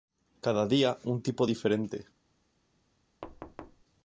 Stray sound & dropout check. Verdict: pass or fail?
fail